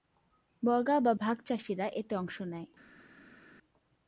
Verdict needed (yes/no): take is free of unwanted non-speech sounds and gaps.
yes